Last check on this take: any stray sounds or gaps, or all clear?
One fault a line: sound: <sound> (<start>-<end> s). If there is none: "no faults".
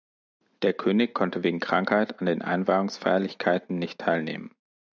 no faults